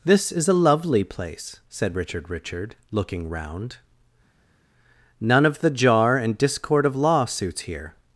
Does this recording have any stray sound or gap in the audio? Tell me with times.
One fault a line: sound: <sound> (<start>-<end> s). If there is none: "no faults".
no faults